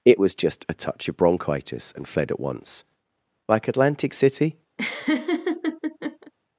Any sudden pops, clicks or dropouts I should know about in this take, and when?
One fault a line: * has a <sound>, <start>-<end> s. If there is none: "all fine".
* has a laugh, 4.8-6.3 s